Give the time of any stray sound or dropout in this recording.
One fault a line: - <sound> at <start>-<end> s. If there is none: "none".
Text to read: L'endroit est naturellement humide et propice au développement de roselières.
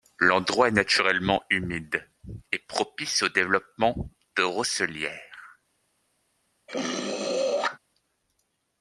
- throat clearing at 6.7-7.8 s